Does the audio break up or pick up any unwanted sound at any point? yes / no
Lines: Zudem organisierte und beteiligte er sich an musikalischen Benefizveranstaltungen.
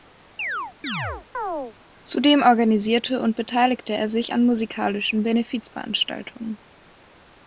yes